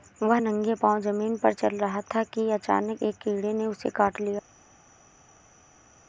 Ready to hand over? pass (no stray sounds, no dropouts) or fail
pass